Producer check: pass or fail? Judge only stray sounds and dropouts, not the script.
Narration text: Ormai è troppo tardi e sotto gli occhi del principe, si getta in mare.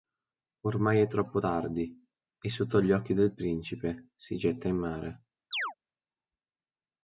fail